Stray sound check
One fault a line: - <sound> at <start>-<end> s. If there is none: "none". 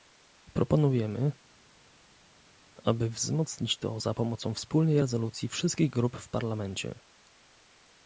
none